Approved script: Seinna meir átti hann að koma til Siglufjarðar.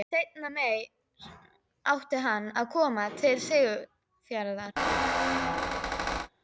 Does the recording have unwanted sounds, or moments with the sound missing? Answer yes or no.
yes